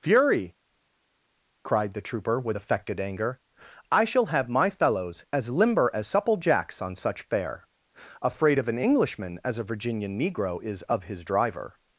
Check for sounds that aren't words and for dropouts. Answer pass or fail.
pass